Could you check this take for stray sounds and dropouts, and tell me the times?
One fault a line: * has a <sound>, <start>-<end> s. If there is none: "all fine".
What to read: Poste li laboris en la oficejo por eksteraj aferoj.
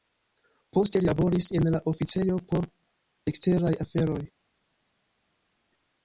all fine